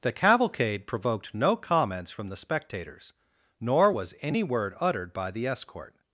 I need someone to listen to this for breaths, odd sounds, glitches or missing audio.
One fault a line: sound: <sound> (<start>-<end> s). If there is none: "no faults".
no faults